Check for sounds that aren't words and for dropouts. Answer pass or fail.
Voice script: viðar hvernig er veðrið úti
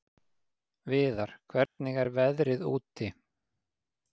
fail